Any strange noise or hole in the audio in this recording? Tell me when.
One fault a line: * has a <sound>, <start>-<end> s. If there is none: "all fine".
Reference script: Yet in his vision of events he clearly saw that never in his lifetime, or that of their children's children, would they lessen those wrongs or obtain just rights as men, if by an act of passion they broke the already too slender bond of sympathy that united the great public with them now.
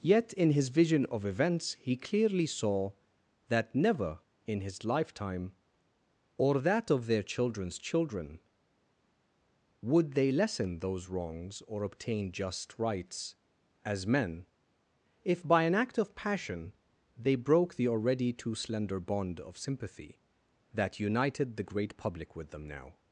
all fine